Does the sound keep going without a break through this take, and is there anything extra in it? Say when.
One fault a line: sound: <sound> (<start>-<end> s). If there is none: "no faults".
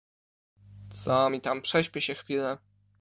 no faults